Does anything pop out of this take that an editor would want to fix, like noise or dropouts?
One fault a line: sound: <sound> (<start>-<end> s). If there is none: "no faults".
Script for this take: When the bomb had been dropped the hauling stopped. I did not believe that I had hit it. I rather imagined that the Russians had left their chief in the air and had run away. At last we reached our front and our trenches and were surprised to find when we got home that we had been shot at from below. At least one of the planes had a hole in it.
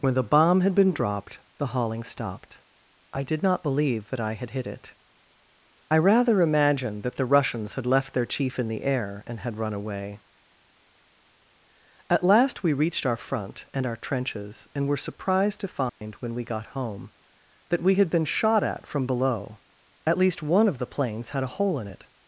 sound: dropout (15.9-16.0 s)